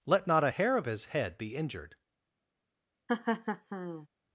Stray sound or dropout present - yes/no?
yes